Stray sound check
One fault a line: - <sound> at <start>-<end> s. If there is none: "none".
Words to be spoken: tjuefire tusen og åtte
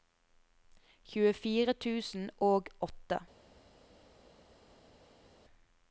none